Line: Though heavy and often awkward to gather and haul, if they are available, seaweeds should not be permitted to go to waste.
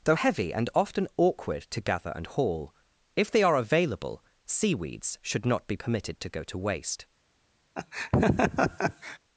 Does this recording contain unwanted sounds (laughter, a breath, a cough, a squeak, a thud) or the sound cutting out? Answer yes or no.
yes